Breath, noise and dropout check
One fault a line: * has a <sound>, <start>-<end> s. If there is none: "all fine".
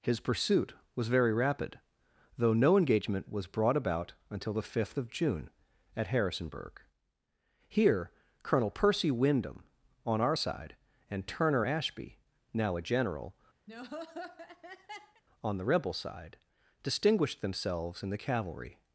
* has a laugh, 13.7-15.2 s